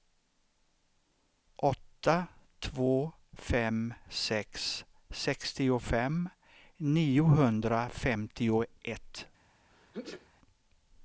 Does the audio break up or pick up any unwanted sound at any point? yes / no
yes